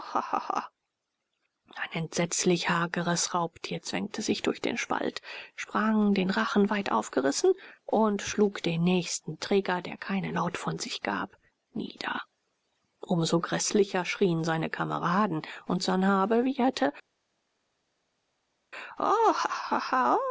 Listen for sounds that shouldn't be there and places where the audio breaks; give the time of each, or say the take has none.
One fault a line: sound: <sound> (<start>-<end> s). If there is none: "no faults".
no faults